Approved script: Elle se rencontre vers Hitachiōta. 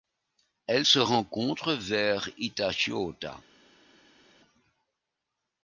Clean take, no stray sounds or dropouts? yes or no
yes